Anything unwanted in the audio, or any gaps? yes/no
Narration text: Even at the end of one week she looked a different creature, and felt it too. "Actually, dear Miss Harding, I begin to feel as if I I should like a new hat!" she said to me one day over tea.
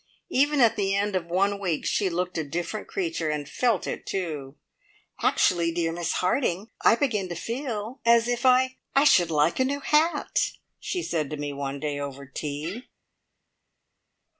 no